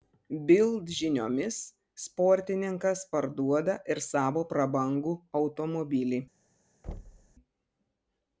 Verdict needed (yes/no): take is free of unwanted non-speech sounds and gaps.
no